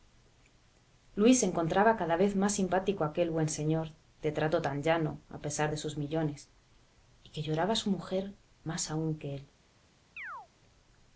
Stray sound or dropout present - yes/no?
yes